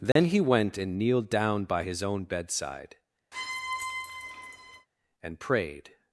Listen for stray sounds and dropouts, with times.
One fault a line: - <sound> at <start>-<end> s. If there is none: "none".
- dropout at 0.1-0.2 s
- squeak at 3.3-4.9 s